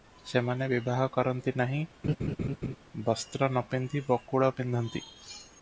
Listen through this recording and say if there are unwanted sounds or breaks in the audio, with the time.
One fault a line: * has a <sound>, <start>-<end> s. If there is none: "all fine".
* has a laugh, 2.0-2.8 s